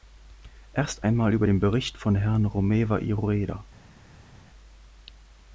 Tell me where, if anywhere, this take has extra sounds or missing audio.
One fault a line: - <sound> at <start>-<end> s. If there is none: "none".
none